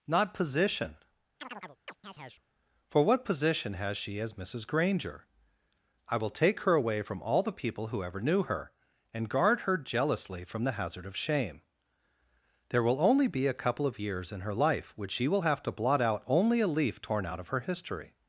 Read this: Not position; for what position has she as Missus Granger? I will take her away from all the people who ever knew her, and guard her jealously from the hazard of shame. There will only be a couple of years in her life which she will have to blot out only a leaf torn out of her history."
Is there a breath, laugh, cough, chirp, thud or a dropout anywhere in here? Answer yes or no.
yes